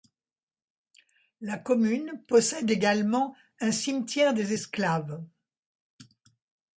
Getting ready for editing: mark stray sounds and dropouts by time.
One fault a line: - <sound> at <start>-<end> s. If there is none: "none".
none